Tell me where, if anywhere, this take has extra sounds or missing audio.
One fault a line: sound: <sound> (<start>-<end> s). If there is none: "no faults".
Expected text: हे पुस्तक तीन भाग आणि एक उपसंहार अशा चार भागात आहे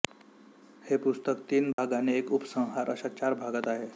sound: dropout (1.7-1.8 s)